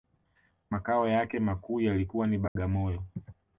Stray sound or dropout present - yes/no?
yes